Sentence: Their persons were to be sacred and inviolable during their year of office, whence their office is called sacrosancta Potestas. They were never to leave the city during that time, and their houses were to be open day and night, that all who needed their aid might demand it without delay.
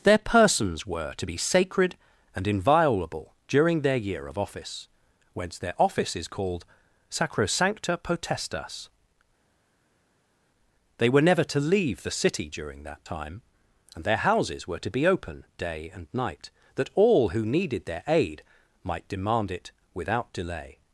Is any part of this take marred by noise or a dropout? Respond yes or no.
no